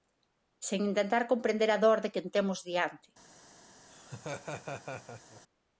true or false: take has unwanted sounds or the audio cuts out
true